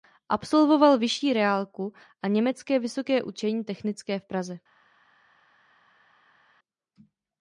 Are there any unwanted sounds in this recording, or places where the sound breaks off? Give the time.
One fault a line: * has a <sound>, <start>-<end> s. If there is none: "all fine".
all fine